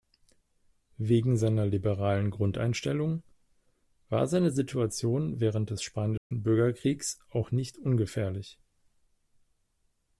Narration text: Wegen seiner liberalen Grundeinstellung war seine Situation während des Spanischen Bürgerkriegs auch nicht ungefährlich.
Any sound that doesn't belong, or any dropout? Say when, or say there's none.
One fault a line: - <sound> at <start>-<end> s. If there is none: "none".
- dropout at 6.2-6.3 s